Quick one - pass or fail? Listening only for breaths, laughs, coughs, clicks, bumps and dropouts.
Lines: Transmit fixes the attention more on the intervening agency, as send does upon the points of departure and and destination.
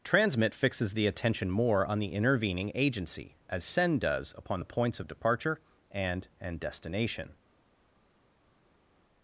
pass